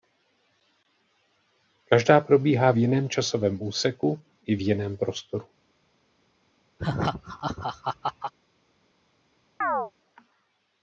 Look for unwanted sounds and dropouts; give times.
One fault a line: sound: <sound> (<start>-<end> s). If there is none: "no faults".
sound: laugh (6.8-8.3 s)
sound: chirp (9.6-9.9 s)